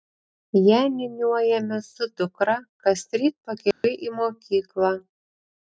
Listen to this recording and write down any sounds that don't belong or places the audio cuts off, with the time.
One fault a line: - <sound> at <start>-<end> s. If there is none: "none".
- dropout at 3.7-3.8 s